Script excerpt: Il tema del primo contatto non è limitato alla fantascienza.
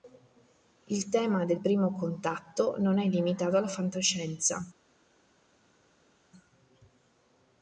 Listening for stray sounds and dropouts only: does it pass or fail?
pass